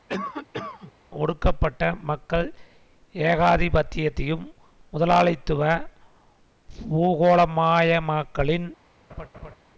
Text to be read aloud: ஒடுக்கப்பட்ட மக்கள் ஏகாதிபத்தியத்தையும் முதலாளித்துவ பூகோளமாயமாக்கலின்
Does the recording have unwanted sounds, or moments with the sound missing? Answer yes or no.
yes